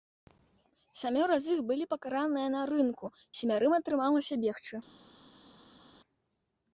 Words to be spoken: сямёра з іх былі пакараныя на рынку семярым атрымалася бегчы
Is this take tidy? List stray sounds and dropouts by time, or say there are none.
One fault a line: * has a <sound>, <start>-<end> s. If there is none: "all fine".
all fine